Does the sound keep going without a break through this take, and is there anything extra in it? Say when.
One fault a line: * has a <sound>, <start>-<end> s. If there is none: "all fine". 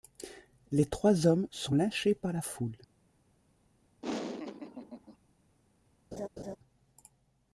* has a laugh, 4.0-5.2 s
* has a laugh, 6.1-6.6 s